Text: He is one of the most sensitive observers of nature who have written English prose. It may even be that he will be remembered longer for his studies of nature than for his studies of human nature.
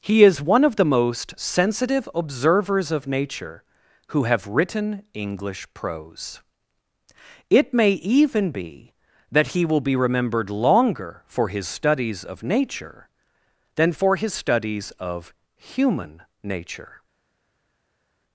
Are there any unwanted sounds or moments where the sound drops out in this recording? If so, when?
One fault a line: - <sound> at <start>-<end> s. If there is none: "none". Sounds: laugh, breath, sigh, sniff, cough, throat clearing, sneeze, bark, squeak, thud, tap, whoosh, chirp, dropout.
none